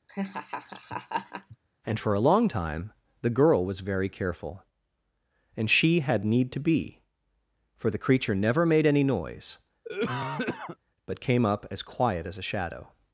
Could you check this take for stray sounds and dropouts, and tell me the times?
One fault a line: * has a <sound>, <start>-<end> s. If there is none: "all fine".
* has a laugh, 0.1-1.6 s
* has a cough, 9.8-10.8 s